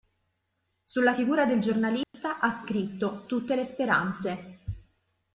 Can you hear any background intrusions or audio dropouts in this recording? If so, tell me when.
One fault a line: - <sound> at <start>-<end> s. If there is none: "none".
- dropout at 2.0-2.1 s